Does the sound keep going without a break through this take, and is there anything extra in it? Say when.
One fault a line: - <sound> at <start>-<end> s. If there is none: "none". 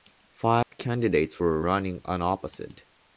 - dropout at 0.6-0.7 s